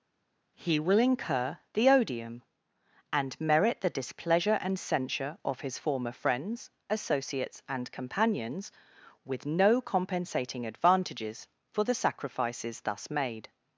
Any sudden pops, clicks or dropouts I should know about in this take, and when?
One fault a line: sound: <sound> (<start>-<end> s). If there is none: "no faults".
no faults